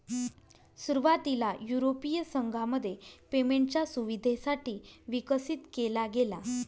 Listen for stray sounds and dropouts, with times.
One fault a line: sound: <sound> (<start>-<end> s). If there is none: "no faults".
no faults